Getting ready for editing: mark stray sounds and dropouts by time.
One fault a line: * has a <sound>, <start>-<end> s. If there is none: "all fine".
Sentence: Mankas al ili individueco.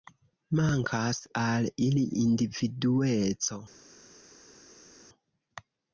all fine